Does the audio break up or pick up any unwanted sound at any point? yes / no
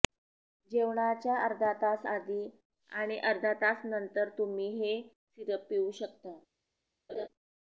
yes